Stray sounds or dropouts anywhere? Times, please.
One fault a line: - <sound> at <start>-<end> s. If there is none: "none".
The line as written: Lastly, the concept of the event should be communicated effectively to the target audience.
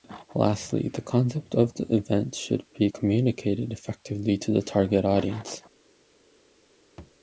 - thud at 7.0-7.2 s